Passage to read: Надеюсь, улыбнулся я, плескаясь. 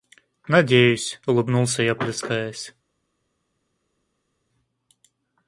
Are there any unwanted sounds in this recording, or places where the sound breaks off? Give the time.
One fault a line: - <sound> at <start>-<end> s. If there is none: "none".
none